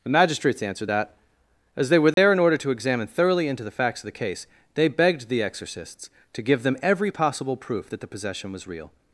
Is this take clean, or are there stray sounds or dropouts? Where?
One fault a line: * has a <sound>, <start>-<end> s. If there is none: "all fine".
* has a dropout, 2.1-2.2 s